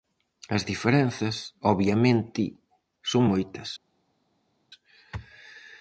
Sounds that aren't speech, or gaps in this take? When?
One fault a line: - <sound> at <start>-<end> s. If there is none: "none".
none